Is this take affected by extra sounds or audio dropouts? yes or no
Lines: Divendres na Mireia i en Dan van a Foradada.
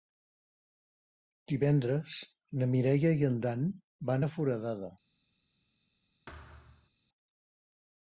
yes